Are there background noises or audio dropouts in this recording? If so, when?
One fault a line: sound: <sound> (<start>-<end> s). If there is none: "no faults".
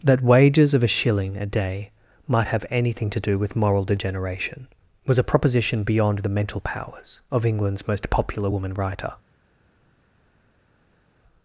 no faults